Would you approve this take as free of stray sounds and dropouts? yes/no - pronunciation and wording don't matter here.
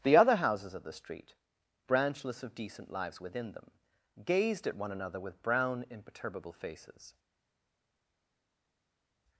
yes